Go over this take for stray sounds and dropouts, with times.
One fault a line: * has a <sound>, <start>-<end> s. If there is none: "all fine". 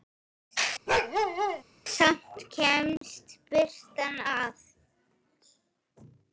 * has a bark, 0.9-1.6 s
* has a dropout, 3.0-3.0 s